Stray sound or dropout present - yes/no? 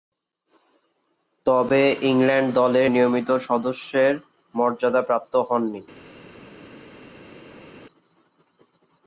no